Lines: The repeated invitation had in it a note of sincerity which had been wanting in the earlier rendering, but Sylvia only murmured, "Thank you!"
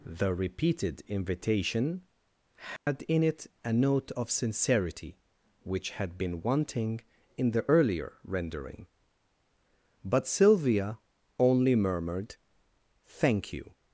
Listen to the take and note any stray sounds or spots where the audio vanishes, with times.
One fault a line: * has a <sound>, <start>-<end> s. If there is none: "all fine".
* has a dropout, 2.8-2.9 s